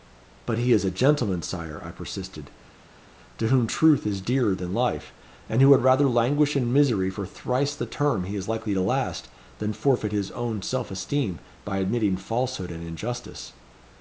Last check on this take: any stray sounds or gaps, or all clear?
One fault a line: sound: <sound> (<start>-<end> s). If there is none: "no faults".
no faults